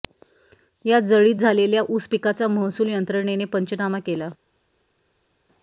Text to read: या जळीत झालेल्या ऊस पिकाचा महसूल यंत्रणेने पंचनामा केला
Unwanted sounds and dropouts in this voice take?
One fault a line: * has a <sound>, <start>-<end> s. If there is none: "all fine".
all fine